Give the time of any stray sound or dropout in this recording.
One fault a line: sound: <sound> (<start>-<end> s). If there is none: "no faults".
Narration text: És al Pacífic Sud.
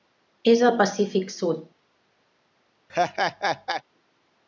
sound: laugh (2.9-3.8 s)